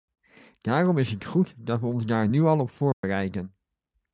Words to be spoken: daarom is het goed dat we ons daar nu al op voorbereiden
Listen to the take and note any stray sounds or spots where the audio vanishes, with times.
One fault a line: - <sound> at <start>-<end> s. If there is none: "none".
- dropout at 2.9-3.0 s